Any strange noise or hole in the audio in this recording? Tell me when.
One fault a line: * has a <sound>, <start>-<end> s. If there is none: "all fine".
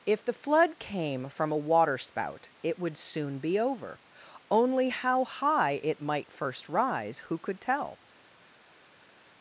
all fine